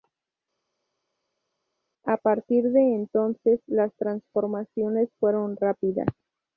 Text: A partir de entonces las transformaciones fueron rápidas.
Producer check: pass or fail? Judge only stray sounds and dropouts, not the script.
pass